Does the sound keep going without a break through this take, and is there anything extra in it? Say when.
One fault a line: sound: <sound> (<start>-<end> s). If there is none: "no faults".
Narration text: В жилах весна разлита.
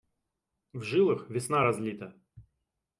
no faults